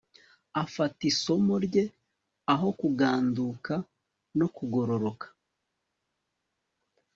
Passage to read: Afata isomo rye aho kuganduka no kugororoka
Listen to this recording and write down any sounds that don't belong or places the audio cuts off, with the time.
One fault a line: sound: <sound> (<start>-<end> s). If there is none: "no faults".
no faults